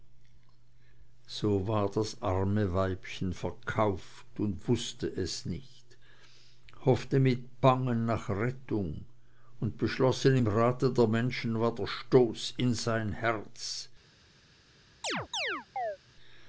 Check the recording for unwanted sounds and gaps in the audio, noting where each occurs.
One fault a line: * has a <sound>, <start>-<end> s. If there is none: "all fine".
* has a chirp, 15.0-16.0 s